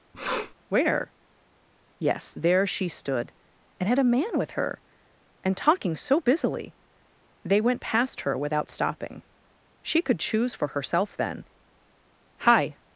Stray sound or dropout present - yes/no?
yes